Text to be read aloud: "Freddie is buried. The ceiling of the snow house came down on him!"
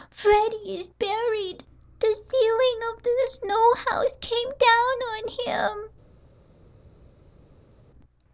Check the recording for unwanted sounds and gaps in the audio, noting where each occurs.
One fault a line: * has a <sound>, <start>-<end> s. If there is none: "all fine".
all fine